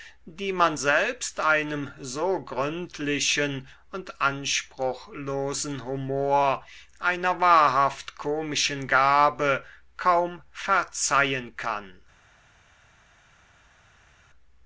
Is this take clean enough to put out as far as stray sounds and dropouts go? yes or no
yes